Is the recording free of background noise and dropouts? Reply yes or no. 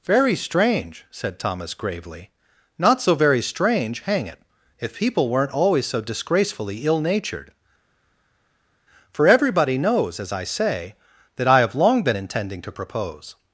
yes